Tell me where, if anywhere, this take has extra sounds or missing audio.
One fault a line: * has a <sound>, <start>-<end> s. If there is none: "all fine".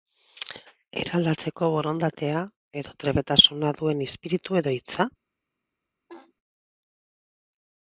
* has a laugh, 6.1-6.3 s